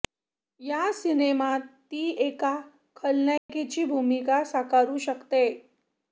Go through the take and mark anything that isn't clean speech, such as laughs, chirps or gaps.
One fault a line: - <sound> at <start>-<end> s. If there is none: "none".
- dropout at 3.4-3.5 s